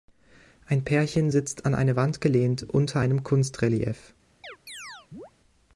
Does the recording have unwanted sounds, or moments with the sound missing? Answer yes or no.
yes